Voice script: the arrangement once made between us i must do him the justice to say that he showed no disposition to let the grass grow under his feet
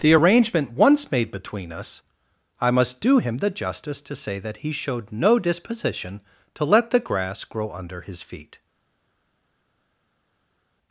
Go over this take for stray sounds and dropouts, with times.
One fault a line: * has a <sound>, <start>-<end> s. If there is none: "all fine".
all fine